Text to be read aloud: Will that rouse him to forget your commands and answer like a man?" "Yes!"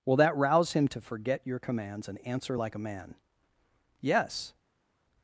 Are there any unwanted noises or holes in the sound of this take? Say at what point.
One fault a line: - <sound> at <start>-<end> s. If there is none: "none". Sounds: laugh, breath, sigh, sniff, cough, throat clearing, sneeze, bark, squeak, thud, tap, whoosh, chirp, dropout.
none